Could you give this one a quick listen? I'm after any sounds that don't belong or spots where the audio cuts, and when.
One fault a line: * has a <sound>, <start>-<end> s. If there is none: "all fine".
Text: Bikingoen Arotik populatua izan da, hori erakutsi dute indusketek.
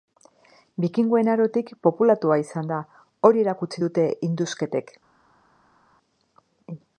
all fine